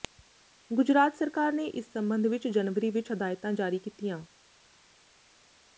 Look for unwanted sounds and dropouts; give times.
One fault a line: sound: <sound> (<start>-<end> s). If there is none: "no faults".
no faults